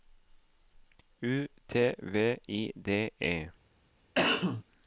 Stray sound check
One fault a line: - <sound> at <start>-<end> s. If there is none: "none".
- cough at 4.1-4.6 s